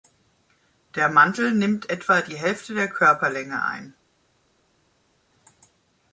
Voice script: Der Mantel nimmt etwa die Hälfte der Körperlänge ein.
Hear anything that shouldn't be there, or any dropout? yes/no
no